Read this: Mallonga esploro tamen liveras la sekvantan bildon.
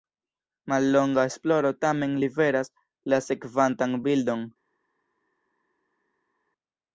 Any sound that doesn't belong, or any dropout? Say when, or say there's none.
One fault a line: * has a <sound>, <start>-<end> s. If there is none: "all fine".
all fine